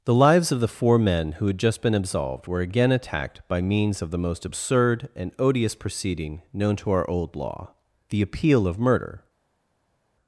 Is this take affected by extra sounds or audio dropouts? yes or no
no